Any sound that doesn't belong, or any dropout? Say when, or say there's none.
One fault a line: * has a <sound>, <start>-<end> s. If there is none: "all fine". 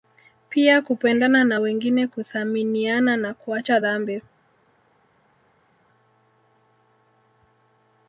all fine